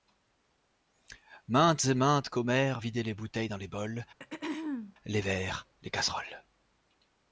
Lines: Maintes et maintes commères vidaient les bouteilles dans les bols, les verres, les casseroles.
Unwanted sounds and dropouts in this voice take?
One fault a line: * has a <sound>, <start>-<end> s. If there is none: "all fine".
* has a throat clearing, 4.2-5.0 s